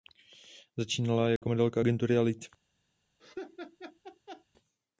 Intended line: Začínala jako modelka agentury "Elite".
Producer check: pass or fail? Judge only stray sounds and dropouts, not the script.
fail